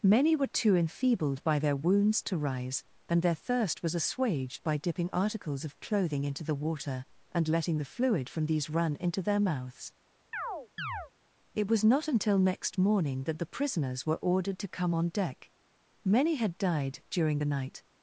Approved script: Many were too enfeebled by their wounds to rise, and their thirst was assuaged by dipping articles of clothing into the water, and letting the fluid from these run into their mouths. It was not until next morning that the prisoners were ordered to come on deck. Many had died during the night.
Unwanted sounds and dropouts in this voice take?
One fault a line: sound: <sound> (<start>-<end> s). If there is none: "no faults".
sound: chirp (10.3-11.1 s)